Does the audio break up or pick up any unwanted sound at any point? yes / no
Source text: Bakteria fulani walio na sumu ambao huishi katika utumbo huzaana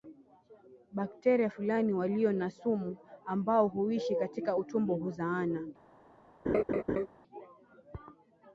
yes